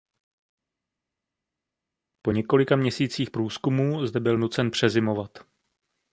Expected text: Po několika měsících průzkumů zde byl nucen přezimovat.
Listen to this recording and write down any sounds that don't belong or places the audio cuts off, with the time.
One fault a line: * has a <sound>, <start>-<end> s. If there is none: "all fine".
all fine